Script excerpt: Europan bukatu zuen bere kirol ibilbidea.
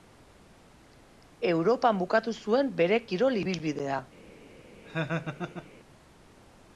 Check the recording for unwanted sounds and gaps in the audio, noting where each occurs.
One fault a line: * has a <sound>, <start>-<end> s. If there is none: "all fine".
* has a laugh, 4.8-5.7 s